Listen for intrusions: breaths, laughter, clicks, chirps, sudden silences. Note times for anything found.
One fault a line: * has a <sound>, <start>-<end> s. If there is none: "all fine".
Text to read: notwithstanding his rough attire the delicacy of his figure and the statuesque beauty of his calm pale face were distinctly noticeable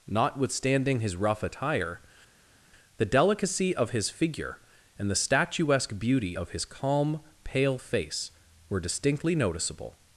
all fine